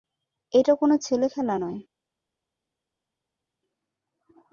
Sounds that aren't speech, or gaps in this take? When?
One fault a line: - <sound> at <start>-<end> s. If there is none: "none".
none